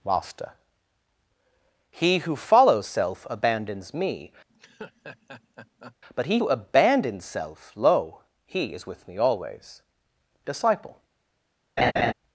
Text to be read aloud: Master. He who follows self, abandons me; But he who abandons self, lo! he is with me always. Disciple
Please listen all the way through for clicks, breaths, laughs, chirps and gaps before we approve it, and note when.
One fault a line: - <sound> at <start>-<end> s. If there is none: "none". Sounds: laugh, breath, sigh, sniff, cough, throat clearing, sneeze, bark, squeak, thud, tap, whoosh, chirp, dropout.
- laugh at 4.5-6.0 s
- laugh at 11.8-12.1 s